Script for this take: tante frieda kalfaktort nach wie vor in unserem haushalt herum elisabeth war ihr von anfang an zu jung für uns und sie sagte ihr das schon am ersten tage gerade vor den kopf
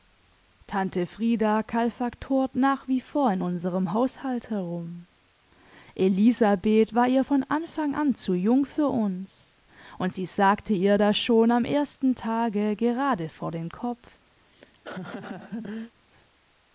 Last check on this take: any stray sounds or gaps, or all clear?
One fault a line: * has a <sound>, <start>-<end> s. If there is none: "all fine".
* has a laugh, 14.4-15.9 s